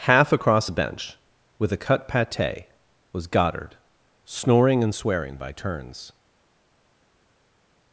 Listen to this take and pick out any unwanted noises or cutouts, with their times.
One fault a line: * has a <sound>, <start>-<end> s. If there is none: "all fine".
all fine